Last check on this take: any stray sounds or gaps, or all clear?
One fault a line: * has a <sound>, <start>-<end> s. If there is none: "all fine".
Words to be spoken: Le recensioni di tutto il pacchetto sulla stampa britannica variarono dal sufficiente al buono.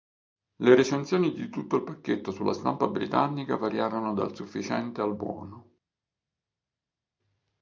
all fine